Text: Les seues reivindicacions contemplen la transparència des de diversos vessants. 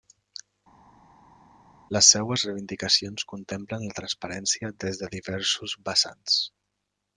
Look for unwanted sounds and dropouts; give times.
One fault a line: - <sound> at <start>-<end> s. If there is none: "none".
none